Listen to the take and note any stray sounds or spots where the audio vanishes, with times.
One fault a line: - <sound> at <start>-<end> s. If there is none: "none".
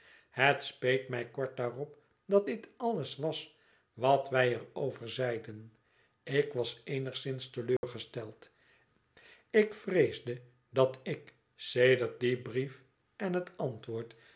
- dropout at 7.8-7.8 s